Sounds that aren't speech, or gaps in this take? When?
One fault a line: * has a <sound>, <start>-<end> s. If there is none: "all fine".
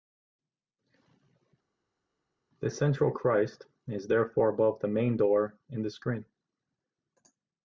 all fine